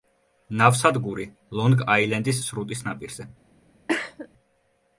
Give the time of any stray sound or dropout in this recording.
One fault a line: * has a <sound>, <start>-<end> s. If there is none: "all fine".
* has a cough, 3.9-4.3 s